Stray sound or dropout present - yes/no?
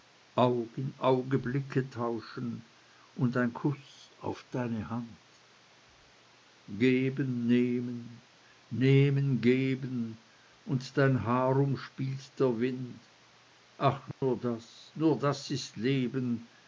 yes